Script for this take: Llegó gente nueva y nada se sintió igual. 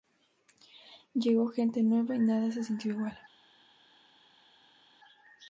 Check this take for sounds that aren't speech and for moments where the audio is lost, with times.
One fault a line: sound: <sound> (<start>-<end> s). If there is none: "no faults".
no faults